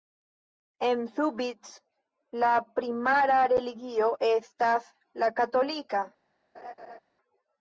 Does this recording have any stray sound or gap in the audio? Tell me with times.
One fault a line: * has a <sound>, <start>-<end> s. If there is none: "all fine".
* has a laugh, 6.5-7.0 s